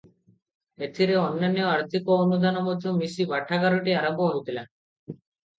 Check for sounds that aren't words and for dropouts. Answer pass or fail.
pass